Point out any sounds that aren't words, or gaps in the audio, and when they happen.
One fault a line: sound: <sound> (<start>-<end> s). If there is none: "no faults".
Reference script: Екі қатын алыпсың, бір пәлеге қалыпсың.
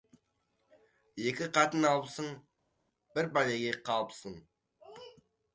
no faults